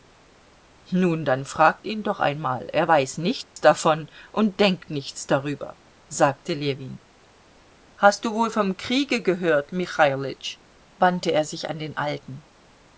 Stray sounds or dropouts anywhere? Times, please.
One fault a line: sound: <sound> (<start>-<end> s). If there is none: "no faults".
sound: dropout (3.4-3.6 s)